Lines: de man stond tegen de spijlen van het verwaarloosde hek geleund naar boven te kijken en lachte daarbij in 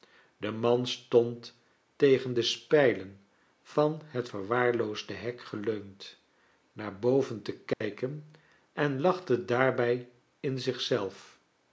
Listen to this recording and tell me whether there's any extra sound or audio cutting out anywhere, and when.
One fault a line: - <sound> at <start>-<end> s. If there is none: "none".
- dropout at 7.7-7.8 s